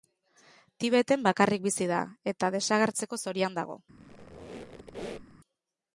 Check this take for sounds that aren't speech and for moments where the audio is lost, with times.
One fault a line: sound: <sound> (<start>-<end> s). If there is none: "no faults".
sound: squeak (4.0-5.4 s)